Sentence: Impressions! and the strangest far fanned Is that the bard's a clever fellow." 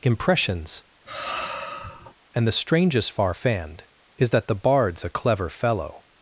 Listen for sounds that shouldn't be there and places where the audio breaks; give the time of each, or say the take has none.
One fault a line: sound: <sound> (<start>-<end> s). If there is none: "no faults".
sound: sigh (1.0-2.1 s)